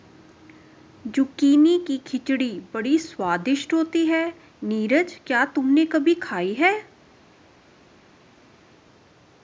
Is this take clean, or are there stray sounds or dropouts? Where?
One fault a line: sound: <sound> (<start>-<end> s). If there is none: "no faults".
no faults